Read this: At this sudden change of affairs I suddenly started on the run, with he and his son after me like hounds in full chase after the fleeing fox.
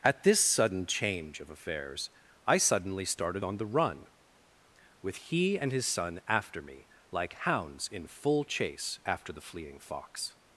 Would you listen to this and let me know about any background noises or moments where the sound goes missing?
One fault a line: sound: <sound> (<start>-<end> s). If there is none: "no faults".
no faults